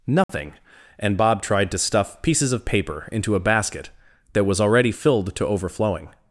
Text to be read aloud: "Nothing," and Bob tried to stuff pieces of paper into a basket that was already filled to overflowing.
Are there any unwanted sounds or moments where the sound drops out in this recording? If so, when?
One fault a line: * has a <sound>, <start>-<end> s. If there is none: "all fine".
* has a dropout, 0.2-0.3 s